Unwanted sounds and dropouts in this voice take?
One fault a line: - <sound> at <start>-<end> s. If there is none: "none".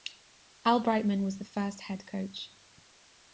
none